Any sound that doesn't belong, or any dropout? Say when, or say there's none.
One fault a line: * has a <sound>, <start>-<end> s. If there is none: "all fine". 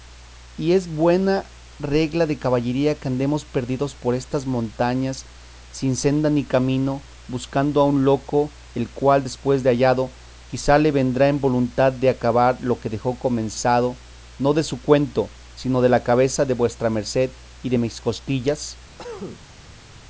* has a cough, 19.0-19.9 s